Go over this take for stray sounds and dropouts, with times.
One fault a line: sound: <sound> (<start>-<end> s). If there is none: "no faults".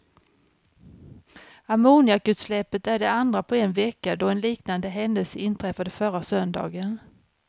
no faults